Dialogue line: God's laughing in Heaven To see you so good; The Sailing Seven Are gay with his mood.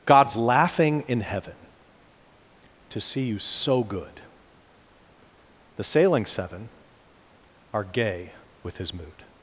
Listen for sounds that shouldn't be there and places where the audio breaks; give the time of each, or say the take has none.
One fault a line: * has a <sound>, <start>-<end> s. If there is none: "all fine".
all fine